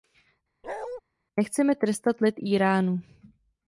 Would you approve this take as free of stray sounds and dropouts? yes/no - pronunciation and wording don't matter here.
no